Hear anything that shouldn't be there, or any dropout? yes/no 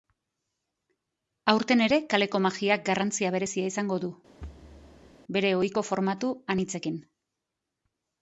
yes